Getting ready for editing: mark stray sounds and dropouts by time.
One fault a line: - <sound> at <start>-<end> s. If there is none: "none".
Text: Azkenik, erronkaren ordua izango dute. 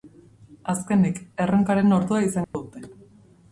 - dropout at 2.4-2.5 s